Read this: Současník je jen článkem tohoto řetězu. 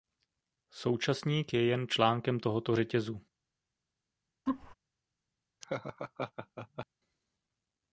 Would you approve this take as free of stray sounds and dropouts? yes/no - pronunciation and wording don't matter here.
no